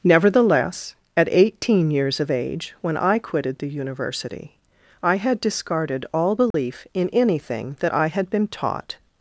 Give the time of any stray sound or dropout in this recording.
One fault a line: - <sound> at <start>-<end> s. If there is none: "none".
- dropout at 6.5-6.5 s